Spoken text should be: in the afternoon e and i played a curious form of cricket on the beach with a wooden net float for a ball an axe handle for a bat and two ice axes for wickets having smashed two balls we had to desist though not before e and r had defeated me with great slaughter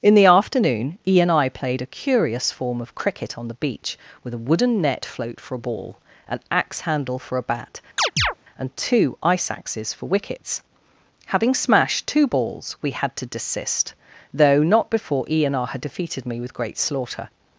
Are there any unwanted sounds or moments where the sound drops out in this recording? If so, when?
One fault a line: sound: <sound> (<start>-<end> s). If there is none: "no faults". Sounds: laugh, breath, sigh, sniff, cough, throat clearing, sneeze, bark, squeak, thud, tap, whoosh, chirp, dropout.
sound: chirp (8.0-8.3 s)